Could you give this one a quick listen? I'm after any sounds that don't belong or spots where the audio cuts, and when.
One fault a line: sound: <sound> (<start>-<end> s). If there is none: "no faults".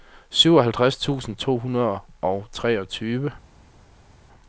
no faults